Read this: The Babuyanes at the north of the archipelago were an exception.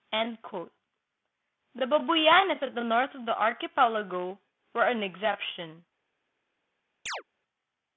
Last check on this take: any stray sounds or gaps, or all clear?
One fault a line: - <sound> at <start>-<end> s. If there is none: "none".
- chirp at 7.1-7.2 s